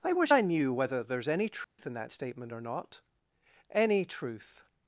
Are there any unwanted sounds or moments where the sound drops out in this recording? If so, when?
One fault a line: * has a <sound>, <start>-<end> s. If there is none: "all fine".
* has a dropout, 1.6-1.8 s